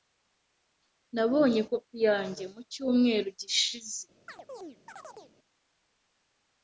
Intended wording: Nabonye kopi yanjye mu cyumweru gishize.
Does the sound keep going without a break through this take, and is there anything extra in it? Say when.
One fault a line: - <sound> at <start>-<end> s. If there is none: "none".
- chirp at 4.3-5.3 s